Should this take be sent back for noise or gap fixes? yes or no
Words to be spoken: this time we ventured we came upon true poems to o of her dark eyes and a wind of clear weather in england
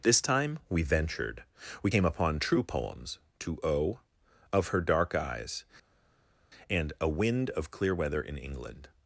no